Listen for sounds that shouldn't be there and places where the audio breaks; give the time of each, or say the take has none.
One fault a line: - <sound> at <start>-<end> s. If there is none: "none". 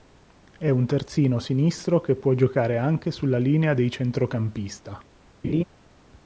- laugh at 5.4-5.6 s